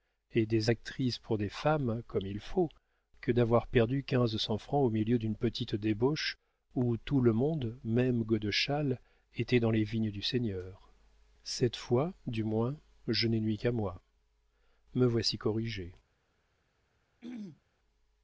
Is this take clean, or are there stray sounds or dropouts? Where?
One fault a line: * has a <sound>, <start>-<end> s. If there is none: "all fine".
* has a throat clearing, 17.2-17.6 s